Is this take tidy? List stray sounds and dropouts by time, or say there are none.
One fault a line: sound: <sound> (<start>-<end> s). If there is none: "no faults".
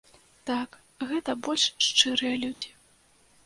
sound: dropout (2.5-2.6 s)